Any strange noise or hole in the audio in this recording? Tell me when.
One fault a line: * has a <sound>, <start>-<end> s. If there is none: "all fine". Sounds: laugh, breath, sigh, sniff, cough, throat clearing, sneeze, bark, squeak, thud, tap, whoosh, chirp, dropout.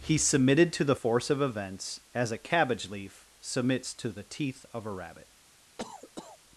* has a cough, 5.8-6.4 s